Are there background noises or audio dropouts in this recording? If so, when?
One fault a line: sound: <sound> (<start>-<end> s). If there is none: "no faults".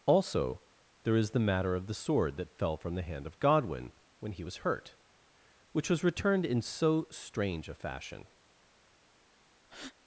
sound: breath (9.6-9.9 s)